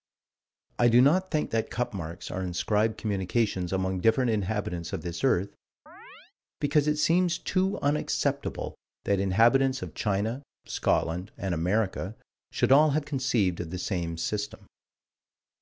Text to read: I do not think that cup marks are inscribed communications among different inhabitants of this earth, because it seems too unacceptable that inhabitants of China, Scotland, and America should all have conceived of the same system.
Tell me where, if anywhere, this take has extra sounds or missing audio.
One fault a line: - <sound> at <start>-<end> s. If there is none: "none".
- chirp at 5.9-6.3 s